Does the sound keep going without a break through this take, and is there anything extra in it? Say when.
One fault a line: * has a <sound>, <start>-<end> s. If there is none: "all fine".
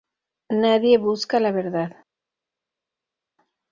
all fine